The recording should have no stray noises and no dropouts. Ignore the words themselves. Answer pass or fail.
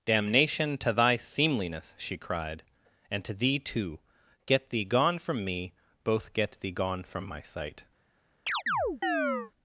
fail